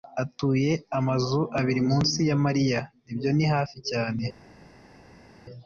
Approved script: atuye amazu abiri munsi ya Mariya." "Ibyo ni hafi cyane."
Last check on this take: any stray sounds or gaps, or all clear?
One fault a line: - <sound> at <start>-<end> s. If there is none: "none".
none